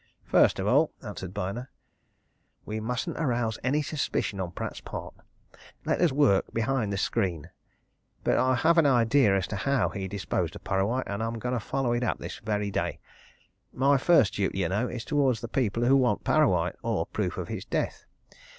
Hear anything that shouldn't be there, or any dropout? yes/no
no